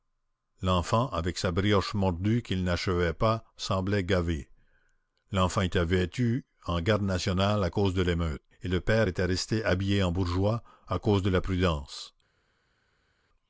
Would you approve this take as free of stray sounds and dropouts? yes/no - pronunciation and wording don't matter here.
yes